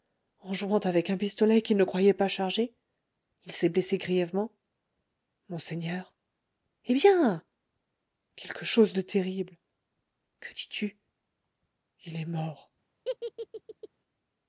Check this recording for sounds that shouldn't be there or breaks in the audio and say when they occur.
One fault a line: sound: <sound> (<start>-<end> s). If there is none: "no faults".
sound: laugh (13.0-13.9 s)